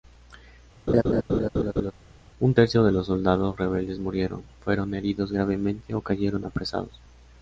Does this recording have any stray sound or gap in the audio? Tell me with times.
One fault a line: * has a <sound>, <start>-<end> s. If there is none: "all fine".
* has a laugh, 0.9-1.9 s